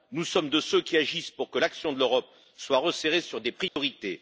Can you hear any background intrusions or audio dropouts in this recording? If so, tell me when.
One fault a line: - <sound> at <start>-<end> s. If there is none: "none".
- dropout at 3.7-3.8 s